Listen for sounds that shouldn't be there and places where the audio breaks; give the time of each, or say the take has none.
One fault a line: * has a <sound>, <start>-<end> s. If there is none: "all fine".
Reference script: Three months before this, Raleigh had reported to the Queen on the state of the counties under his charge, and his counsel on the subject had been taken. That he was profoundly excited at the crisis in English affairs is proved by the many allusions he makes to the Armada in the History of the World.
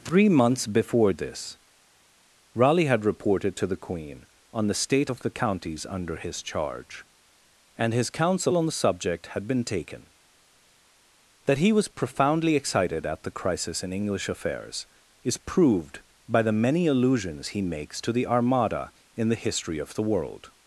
all fine